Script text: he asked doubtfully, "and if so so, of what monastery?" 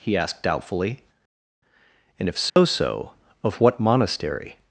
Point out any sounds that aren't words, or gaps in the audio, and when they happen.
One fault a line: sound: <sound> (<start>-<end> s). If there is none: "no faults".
sound: dropout (2.5-2.6 s)